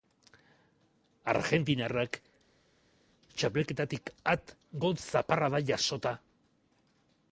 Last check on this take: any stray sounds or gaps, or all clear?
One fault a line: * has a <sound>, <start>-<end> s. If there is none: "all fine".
all fine